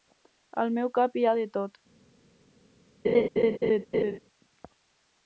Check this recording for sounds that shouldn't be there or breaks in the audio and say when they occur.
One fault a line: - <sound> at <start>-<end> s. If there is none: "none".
- laugh at 3.0-4.2 s